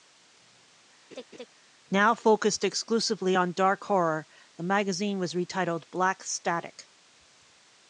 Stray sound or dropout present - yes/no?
yes